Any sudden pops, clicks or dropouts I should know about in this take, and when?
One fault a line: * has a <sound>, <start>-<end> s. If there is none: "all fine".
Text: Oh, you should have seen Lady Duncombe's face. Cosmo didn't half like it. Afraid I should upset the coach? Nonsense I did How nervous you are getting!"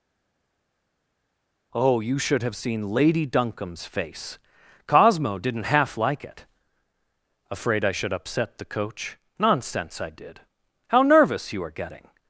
all fine